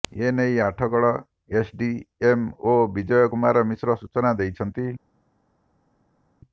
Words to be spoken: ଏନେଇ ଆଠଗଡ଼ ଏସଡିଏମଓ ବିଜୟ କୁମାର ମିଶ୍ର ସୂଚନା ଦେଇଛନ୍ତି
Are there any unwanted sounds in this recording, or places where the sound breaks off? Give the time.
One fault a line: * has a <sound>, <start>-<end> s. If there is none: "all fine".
all fine